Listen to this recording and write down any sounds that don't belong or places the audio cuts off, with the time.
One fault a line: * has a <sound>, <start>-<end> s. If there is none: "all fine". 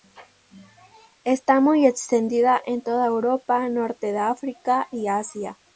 all fine